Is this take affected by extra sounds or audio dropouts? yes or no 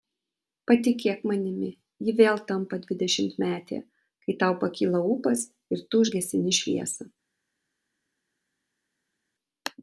no